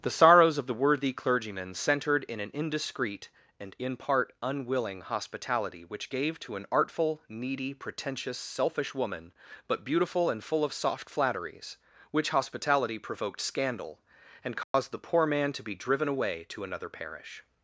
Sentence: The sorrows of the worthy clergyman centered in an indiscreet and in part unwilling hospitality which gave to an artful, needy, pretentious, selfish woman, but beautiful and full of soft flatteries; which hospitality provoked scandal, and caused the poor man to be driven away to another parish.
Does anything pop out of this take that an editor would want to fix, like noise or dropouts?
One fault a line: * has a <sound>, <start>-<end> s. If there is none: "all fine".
* has a dropout, 14.6-14.7 s